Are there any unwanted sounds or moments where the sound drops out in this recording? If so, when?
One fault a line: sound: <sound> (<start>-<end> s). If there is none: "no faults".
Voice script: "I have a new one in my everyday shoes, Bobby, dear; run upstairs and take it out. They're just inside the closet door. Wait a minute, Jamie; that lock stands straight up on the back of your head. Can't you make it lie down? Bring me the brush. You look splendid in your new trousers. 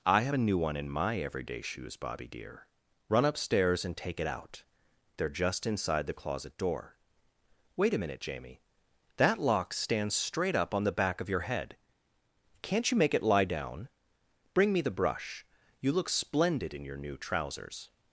no faults